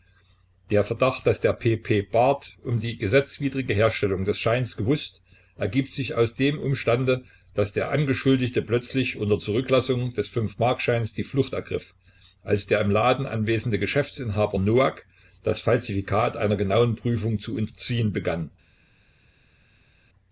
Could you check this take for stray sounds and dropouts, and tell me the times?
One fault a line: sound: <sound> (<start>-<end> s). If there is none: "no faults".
no faults